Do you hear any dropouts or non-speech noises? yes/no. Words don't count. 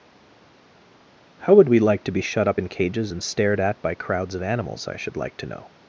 no